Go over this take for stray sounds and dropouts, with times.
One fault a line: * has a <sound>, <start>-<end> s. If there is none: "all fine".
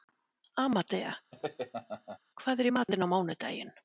* has a laugh, 1.3-2.2 s